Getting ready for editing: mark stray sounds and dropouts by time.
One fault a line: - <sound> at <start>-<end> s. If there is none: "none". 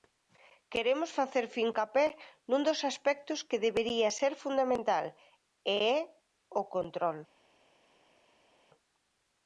none